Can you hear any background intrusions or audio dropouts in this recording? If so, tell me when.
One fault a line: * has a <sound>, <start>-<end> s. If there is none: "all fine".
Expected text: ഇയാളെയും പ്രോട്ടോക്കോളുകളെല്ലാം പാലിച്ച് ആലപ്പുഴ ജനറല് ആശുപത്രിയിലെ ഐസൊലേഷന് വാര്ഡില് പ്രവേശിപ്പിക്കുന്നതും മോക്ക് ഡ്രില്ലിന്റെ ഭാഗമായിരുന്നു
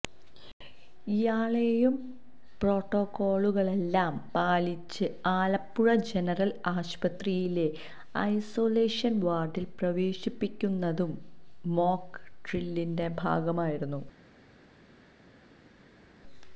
all fine